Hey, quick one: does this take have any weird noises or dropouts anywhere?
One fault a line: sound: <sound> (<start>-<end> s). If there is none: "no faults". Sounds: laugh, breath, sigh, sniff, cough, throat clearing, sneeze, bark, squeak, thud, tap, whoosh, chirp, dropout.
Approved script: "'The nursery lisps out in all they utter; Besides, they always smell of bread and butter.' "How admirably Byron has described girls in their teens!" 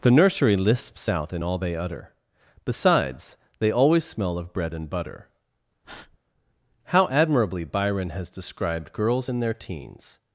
sound: breath (5.8-6.2 s)